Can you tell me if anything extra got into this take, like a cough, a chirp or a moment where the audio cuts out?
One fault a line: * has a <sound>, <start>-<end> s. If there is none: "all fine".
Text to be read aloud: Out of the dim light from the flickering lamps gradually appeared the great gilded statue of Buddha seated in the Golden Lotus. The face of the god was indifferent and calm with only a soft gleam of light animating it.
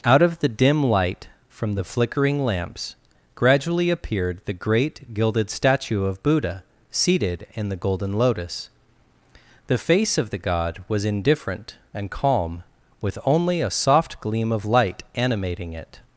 all fine